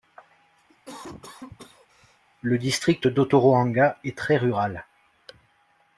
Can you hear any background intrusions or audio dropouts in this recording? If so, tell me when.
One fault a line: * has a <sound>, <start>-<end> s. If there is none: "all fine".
* has a cough, 0.7-2.2 s